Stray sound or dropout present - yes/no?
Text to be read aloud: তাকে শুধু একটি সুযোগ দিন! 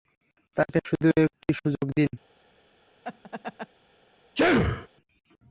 yes